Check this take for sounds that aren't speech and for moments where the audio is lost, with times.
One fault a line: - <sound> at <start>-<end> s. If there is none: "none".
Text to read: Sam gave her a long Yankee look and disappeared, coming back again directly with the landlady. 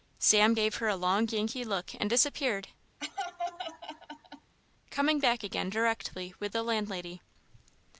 - laugh at 3.0-4.5 s